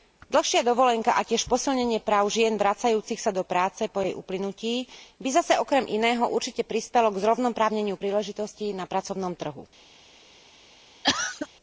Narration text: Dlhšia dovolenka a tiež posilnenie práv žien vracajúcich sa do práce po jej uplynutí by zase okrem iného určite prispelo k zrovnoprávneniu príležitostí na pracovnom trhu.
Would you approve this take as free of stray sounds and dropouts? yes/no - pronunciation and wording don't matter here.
no